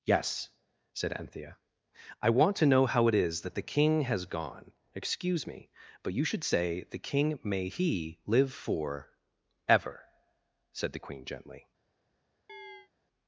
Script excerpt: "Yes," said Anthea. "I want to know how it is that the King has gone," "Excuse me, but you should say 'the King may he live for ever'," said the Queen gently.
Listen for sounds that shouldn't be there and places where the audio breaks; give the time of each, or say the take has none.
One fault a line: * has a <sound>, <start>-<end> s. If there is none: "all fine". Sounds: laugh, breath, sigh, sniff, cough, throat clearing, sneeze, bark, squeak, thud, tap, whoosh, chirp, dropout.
* has a chirp, 12.5-12.9 s